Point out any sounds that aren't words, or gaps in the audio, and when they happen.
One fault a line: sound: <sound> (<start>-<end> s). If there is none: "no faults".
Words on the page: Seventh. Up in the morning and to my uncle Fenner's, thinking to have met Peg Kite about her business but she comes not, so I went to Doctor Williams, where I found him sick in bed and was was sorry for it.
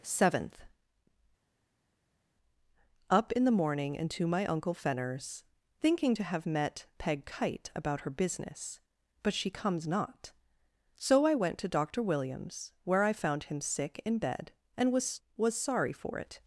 no faults